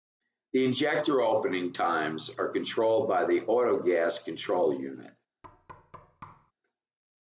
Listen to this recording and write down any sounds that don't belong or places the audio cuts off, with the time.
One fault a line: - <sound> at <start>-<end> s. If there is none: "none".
- thud at 5.4-6.5 s